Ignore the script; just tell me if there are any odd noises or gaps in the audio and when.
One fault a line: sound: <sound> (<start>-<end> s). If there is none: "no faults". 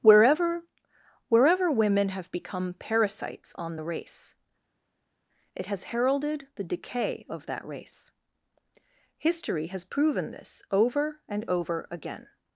no faults